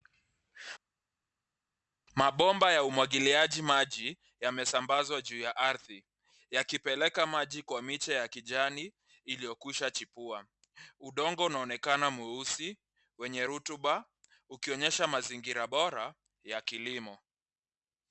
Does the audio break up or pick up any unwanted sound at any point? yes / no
no